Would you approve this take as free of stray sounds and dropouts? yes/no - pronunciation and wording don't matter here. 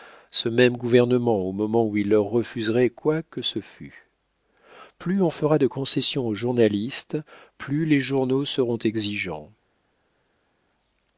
yes